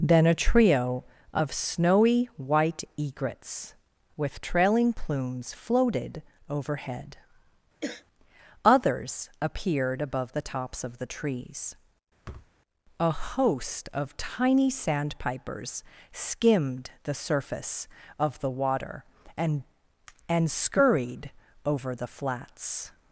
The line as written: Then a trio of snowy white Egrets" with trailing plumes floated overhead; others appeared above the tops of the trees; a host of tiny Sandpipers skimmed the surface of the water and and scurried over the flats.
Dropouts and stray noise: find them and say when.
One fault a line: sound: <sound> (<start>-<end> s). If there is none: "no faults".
sound: throat clearing (7.8-8.0 s)
sound: thud (12.2-12.5 s)